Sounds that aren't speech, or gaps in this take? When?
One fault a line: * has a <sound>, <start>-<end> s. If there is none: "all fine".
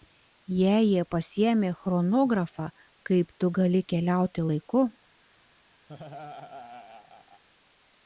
* has a laugh, 5.9-7.4 s